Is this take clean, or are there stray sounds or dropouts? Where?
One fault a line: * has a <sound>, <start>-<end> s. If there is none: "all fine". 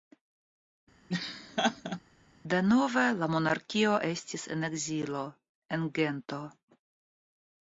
* has a laugh, 1.1-2.0 s